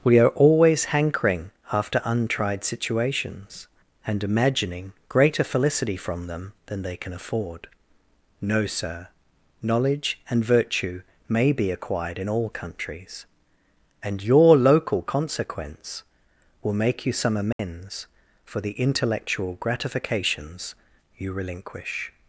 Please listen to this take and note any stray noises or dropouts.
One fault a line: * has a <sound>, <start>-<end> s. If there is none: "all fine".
* has a dropout, 17.5-17.6 s